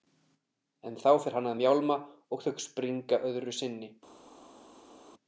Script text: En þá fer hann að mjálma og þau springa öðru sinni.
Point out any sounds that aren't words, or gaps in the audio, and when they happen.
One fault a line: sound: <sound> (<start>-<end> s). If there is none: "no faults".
no faults